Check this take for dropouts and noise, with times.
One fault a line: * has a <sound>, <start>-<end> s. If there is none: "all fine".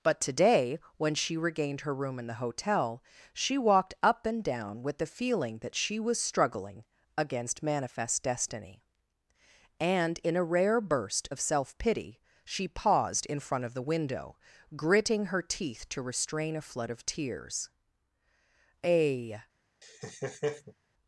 * has a laugh, 19.8-20.7 s